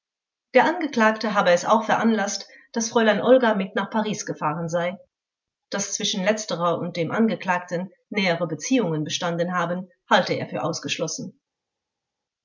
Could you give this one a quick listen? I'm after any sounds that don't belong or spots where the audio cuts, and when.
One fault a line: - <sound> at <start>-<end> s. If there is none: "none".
none